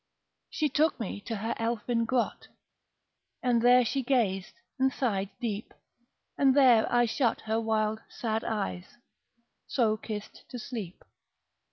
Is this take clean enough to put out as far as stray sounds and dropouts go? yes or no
yes